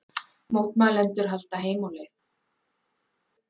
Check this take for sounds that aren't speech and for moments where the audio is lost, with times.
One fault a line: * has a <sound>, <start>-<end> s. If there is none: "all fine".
all fine